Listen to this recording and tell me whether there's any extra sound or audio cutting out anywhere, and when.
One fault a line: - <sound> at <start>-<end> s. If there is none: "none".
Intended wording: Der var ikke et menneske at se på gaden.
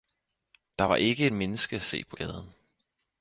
none